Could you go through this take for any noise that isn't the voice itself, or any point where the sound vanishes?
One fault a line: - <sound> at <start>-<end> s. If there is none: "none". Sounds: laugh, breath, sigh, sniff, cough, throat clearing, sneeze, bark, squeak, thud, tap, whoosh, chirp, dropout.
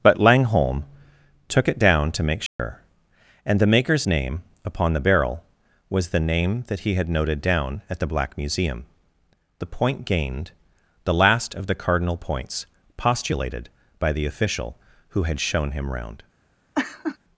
- dropout at 2.5-2.6 s
- laugh at 16.7-17.2 s